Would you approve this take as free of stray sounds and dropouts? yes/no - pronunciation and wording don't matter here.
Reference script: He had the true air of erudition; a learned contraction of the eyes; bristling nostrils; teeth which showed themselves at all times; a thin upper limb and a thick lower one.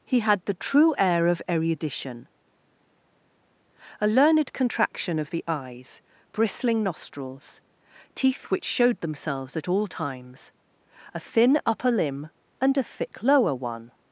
yes